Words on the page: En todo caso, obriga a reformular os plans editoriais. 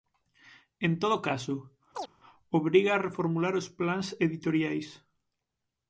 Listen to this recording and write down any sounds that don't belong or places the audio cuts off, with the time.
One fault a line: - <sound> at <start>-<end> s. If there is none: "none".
- chirp at 1.9-2.1 s